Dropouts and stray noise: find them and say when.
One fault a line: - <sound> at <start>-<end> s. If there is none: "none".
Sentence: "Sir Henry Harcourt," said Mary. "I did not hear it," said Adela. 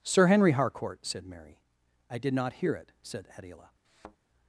- thud at 3.8-4.2 s